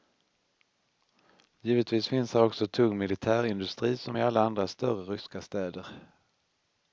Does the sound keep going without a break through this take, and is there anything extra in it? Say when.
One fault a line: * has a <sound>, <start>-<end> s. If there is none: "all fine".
all fine